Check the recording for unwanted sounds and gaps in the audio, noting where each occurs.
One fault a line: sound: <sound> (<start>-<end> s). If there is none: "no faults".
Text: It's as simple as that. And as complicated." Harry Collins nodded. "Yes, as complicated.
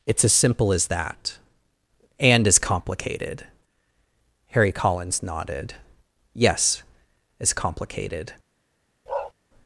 sound: bark (9.1-9.3 s)